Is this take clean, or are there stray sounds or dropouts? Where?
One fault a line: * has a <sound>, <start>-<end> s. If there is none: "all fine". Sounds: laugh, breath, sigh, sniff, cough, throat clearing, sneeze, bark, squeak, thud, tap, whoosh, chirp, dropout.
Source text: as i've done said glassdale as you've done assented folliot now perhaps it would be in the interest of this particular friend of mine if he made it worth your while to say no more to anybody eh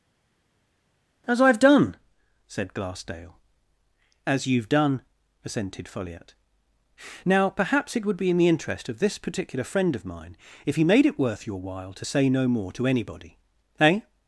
all fine